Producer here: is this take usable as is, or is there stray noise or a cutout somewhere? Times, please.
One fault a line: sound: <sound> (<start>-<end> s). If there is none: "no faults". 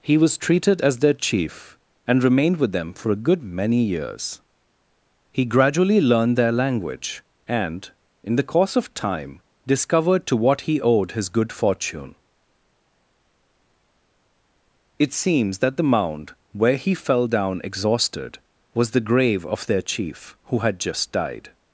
no faults